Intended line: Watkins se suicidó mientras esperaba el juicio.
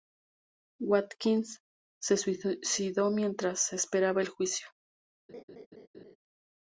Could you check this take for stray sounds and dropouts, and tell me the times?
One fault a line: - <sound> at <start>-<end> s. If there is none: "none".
- laugh at 5.3-6.2 s